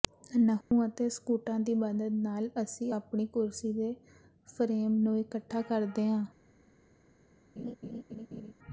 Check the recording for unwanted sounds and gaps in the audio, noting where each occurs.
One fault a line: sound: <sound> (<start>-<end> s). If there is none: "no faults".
sound: dropout (0.6-0.7 s)
sound: laugh (7.6-8.5 s)